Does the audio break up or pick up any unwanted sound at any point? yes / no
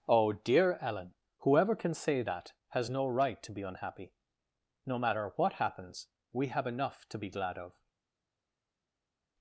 no